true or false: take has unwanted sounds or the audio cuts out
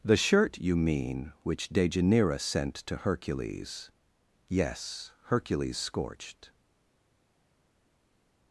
false